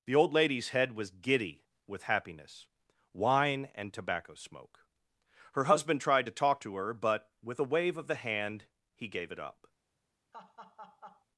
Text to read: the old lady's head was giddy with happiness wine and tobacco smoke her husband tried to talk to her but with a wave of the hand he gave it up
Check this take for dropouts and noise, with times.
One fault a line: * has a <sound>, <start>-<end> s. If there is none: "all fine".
* has a laugh, 10.3-11.3 s